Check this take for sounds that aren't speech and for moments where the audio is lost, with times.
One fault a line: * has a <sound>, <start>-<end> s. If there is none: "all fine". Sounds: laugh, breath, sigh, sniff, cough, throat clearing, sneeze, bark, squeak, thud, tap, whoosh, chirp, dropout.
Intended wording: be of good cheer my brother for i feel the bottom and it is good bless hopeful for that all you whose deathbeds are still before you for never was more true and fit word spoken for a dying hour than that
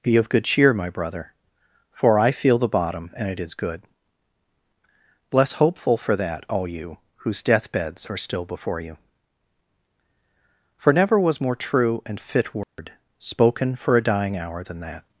* has a dropout, 12.6-12.8 s